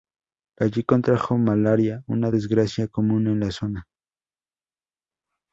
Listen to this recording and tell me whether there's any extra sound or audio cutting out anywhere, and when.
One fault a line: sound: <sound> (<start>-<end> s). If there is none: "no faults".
no faults